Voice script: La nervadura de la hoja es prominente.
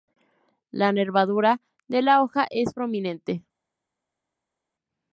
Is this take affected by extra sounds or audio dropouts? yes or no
no